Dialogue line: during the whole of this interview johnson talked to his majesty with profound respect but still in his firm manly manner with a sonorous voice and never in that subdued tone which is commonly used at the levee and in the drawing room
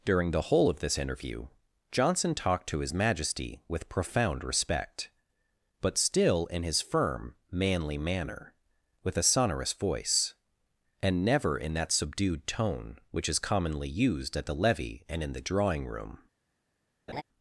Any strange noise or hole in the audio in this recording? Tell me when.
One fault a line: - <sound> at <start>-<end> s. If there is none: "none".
- laugh at 17.1-17.2 s